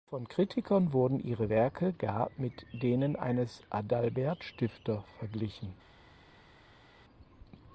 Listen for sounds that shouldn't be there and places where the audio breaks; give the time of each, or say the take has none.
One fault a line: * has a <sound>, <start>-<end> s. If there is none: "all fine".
all fine